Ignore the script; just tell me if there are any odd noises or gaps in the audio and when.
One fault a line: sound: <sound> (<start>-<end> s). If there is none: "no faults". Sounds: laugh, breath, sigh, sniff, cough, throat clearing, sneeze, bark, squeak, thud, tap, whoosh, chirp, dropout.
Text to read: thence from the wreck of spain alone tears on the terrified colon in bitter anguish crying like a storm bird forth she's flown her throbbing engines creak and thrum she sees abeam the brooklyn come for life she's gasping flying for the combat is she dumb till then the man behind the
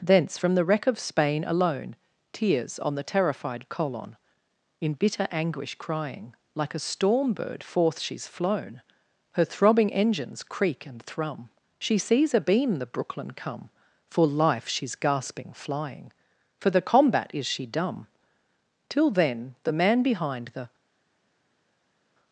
no faults